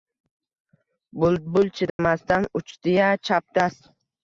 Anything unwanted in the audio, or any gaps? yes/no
yes